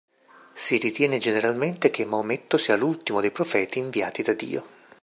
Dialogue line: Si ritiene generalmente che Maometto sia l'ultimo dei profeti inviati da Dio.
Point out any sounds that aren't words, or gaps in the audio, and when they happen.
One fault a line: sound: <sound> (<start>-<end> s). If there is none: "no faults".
no faults